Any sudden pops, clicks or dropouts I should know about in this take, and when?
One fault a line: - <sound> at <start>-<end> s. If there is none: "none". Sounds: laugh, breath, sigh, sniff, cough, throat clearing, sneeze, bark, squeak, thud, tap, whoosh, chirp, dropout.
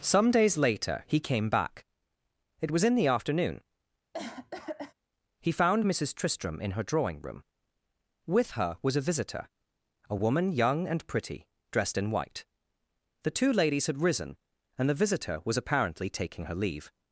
- cough at 4.1-4.9 s